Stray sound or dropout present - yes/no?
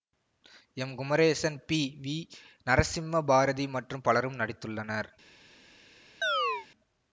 yes